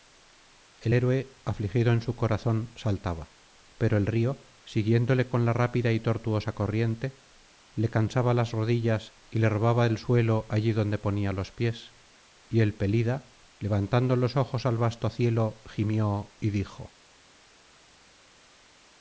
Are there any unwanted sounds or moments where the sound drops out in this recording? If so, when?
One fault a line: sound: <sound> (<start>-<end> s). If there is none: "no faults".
no faults